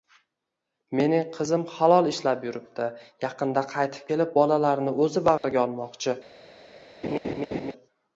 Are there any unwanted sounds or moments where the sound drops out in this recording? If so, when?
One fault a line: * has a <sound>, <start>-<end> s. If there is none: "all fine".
* has a dropout, 5.4-5.4 s
* has a laugh, 7.0-7.7 s